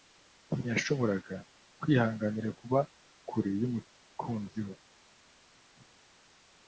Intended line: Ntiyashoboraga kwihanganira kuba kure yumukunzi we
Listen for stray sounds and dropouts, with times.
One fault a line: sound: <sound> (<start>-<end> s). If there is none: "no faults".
no faults